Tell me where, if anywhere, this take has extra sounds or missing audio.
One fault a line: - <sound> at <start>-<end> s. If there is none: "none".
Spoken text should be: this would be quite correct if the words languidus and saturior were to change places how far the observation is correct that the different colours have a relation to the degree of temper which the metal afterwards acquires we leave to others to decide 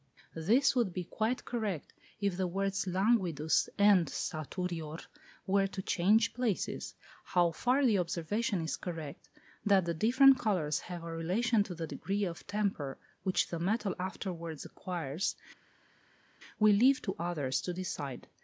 none